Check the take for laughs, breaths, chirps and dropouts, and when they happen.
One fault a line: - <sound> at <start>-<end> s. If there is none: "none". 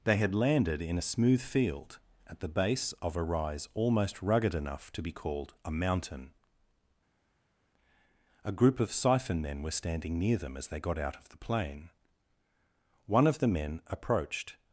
none